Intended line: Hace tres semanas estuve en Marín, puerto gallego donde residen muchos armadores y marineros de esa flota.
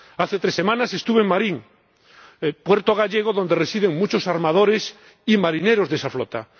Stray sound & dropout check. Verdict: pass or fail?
pass